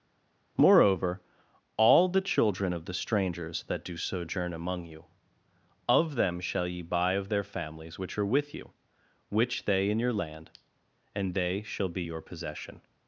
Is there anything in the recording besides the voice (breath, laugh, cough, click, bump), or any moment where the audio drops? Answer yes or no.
no